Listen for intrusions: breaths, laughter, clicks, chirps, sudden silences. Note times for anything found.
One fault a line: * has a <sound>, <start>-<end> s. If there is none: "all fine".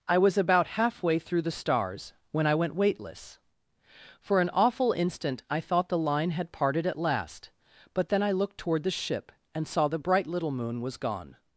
all fine